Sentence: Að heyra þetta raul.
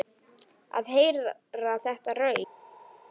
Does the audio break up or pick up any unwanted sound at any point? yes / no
no